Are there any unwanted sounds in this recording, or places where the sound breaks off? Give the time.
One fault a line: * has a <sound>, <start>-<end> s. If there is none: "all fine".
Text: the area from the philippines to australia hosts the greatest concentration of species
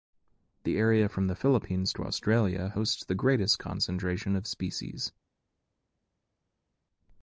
all fine